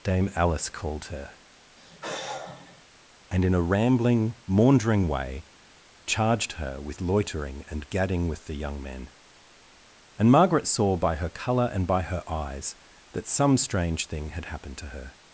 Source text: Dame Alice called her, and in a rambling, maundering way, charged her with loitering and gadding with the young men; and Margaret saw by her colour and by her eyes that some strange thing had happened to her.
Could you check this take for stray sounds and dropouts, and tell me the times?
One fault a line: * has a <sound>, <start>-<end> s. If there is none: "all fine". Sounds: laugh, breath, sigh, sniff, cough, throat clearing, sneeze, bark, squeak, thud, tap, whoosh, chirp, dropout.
* has a sigh, 1.8-2.8 s